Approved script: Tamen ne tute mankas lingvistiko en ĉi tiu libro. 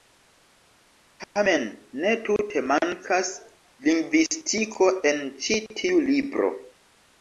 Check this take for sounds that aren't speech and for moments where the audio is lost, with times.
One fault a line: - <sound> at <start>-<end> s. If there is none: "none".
none